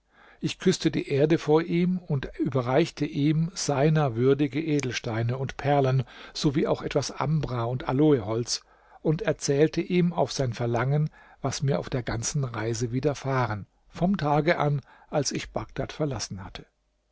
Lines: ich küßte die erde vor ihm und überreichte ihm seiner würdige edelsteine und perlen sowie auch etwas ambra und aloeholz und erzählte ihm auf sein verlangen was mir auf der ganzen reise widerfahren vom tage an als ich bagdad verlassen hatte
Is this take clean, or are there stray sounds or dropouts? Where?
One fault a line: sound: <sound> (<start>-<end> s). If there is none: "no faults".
no faults